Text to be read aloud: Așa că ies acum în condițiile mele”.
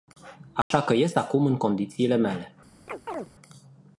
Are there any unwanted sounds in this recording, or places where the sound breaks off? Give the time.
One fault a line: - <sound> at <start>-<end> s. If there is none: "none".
- dropout at 0.6-0.7 s
- chirp at 2.9-3.3 s